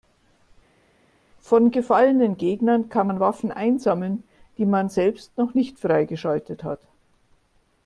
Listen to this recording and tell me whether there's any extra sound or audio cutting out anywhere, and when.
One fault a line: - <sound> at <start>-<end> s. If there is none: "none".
none